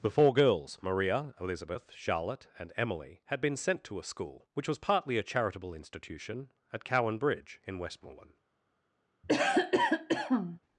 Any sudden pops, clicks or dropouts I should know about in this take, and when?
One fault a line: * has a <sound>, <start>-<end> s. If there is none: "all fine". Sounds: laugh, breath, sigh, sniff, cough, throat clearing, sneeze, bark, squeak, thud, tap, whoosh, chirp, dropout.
* has a cough, 9.2-10.6 s